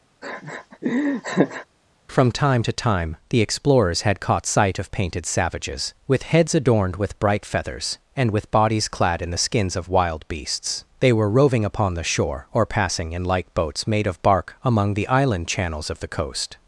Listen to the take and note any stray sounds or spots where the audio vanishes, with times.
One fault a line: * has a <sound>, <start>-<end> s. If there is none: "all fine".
* has a laugh, 0.2-1.7 s